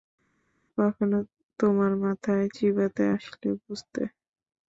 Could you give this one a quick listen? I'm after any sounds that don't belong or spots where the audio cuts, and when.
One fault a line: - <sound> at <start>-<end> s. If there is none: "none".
none